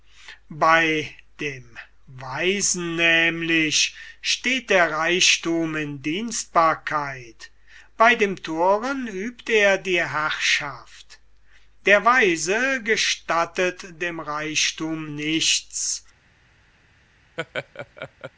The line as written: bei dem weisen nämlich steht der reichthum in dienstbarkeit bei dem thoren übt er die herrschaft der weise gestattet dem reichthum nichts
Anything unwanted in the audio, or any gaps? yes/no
yes